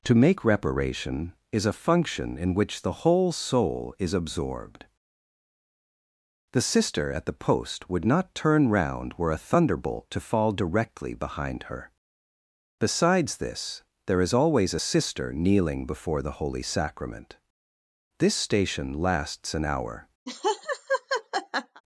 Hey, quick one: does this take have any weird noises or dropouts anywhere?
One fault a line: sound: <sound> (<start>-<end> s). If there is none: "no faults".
sound: laugh (20.3-21.8 s)